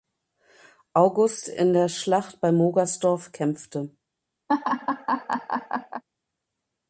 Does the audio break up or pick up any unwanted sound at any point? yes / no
yes